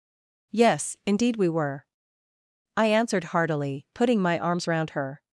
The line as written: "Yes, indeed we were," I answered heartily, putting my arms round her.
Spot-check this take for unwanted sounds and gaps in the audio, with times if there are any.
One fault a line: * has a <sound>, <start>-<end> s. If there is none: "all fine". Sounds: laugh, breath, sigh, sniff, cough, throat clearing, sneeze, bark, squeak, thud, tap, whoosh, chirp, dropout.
all fine